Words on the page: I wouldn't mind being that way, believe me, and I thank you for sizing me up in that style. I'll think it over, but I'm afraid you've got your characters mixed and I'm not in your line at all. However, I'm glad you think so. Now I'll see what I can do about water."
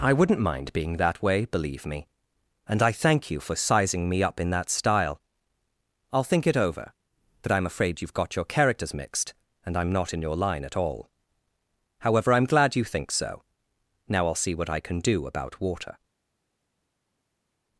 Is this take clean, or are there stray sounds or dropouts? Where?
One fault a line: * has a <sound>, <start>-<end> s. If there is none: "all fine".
all fine